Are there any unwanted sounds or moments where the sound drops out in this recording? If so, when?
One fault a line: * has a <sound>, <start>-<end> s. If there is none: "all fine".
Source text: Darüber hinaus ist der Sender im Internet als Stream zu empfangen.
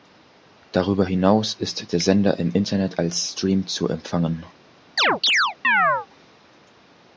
* has a chirp, 5.0-6.1 s